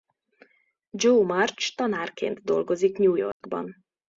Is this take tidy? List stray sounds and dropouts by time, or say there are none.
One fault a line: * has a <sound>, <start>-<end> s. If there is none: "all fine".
* has a dropout, 3.3-3.4 s